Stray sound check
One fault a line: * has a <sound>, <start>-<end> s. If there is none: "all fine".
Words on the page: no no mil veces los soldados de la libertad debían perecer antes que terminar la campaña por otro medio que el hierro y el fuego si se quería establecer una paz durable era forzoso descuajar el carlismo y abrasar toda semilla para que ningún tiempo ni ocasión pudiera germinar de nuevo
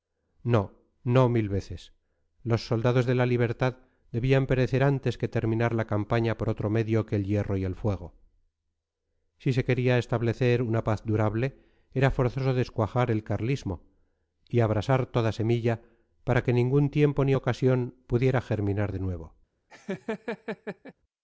* has a laugh, 19.7-20.9 s